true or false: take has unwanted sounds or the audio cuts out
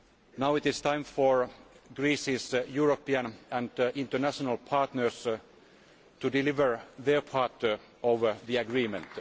false